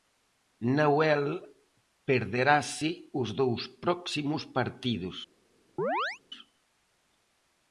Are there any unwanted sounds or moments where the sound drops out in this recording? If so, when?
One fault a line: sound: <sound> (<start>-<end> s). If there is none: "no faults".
sound: chirp (5.8-6.2 s)